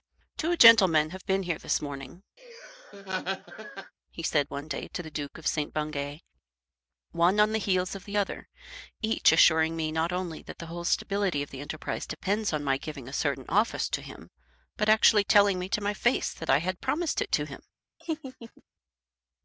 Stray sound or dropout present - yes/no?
yes